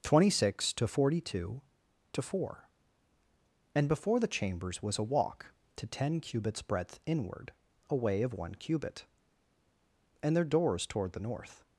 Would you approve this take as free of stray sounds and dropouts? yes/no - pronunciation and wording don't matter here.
yes